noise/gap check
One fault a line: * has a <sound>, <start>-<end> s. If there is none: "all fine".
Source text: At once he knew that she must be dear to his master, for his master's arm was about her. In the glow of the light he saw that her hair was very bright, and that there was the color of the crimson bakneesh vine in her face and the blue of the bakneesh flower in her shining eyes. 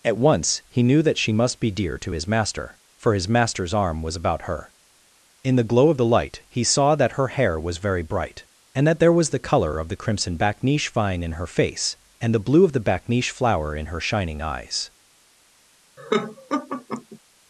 * has a laugh, 16.0-17.2 s